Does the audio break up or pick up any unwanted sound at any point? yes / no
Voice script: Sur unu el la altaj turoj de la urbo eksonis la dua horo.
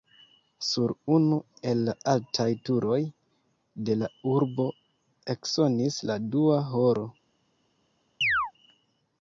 yes